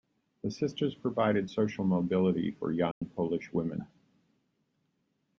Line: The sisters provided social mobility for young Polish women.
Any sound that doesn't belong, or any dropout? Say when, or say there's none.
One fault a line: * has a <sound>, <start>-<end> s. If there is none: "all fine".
* has a dropout, 2.9-3.0 s